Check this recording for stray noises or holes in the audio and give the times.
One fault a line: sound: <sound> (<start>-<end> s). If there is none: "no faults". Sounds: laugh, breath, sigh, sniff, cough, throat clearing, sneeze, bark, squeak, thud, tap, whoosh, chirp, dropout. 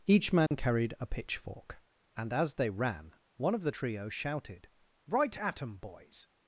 sound: dropout (0.5-0.5 s)